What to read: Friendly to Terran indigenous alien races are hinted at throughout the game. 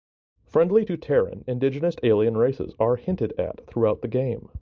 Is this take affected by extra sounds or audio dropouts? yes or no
no